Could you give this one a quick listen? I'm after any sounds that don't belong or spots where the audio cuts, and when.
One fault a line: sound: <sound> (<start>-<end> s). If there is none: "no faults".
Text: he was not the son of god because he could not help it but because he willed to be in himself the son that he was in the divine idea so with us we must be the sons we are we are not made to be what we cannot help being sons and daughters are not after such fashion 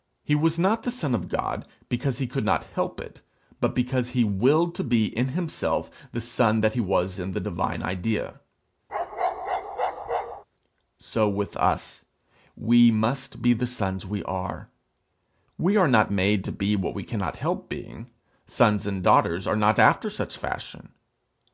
sound: bark (8.9-10.4 s)